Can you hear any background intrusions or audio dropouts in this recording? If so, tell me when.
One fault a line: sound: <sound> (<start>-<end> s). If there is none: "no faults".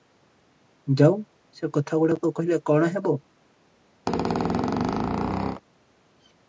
sound: squeak (4.1-5.6 s)